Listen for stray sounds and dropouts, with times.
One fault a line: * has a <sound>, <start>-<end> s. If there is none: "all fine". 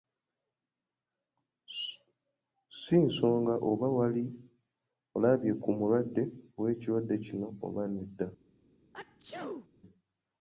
* has a sneeze, 8.9-9.7 s